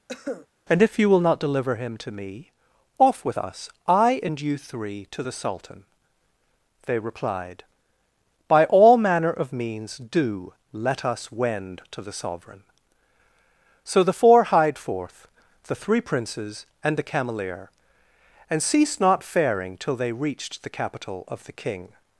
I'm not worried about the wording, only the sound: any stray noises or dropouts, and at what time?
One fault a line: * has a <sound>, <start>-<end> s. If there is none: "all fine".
* has a cough, 0.1-0.5 s